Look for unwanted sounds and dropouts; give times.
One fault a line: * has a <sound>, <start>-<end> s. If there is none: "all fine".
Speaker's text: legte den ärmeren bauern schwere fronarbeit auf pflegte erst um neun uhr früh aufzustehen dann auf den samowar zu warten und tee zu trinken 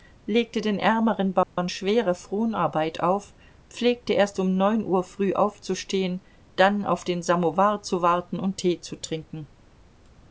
* has a dropout, 1.4-1.6 s